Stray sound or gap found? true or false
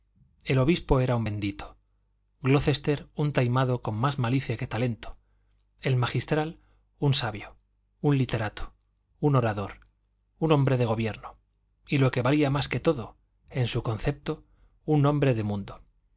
false